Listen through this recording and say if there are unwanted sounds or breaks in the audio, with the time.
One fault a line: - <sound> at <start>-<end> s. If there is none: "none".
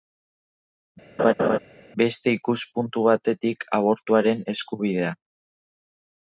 - laugh at 1.2-1.6 s